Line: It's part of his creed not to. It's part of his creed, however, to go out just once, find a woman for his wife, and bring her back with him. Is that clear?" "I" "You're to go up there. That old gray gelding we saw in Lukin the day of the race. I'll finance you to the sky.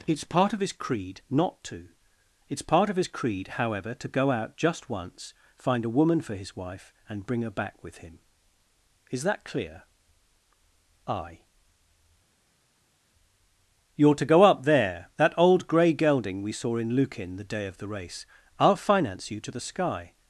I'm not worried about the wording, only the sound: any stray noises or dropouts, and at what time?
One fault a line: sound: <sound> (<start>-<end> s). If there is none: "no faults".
no faults